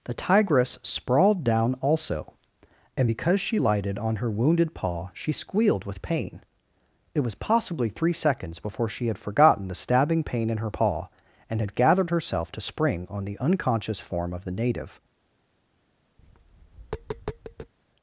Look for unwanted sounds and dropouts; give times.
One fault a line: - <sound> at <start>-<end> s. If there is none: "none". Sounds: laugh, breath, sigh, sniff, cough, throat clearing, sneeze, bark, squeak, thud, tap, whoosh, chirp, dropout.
- tap at 16.2-17.7 s